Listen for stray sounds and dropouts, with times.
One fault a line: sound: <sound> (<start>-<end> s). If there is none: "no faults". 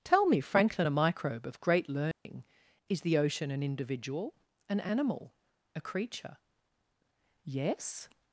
sound: dropout (2.1-2.3 s)